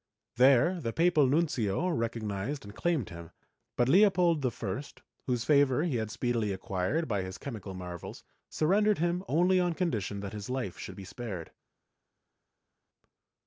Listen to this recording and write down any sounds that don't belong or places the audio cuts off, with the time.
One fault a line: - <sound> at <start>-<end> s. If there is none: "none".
none